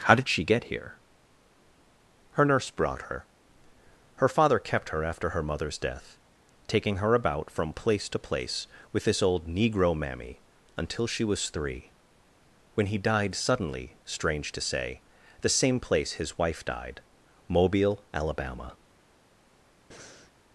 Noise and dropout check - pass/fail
fail